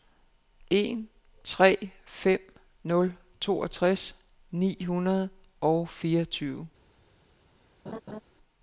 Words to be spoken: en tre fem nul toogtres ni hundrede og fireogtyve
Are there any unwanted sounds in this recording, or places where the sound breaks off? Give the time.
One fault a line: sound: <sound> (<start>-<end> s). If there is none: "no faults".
sound: laugh (7.9-8.2 s)